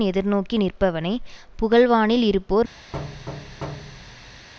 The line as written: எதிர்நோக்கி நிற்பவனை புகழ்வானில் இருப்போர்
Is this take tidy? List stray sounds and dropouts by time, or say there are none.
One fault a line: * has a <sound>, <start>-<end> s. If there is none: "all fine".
* has a thud, 2.9-4.5 s